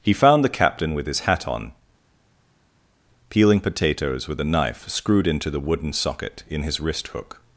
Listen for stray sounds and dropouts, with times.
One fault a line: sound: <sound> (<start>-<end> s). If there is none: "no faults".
no faults